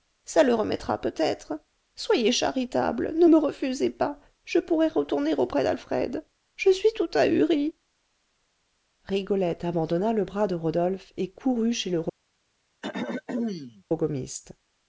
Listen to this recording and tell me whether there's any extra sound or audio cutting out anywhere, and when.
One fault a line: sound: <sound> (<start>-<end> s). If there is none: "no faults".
sound: throat clearing (12.8-13.8 s)